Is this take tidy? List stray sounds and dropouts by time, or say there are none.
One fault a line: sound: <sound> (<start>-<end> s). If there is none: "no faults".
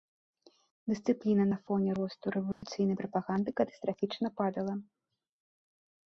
sound: dropout (2.5-2.6 s)